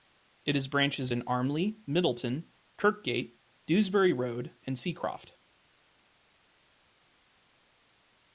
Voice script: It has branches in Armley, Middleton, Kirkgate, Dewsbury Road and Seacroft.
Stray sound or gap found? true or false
false